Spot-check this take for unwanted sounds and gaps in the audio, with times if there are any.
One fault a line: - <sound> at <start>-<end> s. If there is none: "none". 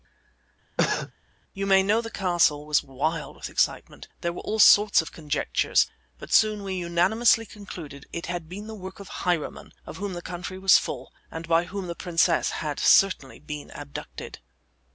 - cough at 0.8-1.1 s